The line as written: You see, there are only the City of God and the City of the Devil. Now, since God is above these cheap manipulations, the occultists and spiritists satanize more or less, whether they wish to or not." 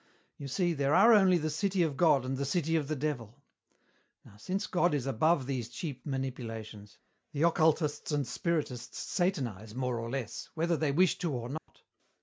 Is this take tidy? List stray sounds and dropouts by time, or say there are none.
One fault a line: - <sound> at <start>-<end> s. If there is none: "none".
- dropout at 11.6-11.7 s